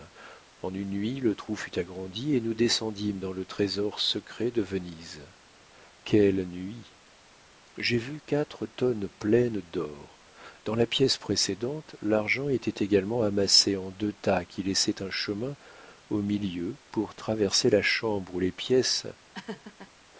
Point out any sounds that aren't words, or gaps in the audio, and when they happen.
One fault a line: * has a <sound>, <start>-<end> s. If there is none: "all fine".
* has a laugh, 19.3-19.9 s